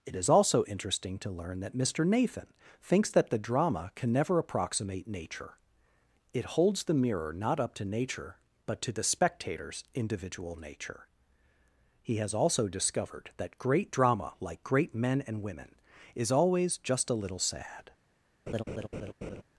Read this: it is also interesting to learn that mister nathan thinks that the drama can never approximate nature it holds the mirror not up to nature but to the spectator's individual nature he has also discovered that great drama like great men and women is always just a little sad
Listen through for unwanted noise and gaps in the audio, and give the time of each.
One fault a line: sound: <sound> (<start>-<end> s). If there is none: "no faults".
sound: laugh (18.5-19.4 s)